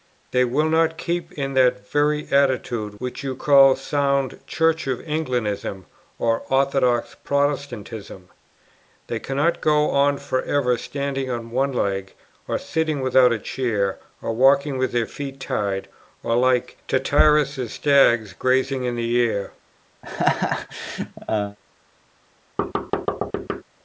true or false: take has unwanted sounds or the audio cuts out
true